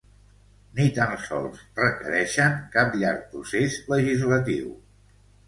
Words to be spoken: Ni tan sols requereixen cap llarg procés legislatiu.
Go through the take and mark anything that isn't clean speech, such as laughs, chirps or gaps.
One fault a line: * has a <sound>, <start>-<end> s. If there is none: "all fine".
all fine